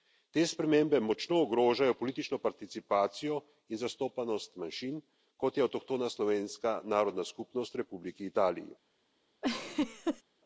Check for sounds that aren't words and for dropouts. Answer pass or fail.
fail